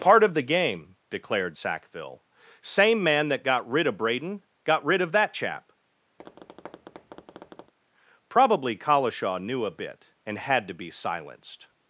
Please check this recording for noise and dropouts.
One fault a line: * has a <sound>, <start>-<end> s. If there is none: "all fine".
* has a tap, 6.2-7.7 s